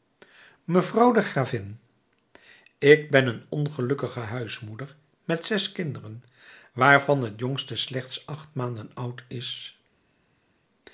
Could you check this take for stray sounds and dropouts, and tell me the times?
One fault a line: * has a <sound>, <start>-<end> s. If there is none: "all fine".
all fine